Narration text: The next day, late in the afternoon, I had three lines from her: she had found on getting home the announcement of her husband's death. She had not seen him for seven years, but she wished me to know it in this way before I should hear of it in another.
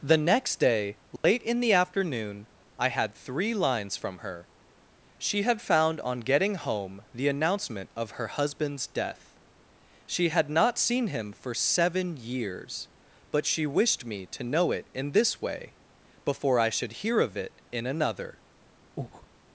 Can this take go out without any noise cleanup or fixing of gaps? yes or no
no